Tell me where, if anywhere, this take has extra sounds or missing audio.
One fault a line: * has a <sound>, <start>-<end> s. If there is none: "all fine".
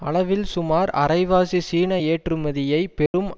* has a dropout, 3.1-3.1 s